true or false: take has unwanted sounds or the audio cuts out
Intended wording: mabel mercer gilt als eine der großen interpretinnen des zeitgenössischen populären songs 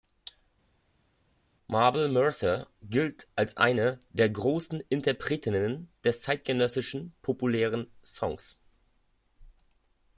false